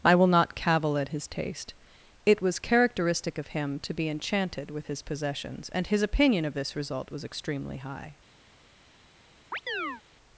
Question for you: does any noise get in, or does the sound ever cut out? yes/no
yes